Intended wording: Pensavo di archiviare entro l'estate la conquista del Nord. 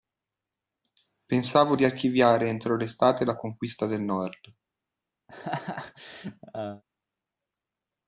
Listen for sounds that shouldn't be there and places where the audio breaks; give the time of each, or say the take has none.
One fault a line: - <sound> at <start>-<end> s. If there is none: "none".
- laugh at 5.3-6.8 s